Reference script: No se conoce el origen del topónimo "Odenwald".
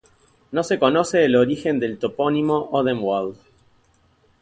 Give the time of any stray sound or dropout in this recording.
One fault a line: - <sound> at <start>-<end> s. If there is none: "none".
none